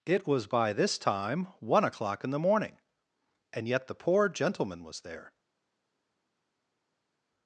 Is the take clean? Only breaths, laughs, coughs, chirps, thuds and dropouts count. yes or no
yes